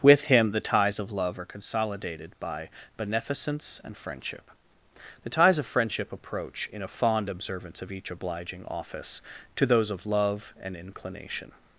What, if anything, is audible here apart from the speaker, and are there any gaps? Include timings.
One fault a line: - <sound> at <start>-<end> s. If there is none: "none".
none